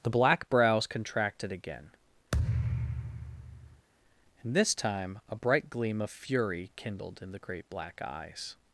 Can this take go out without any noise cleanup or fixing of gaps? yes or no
no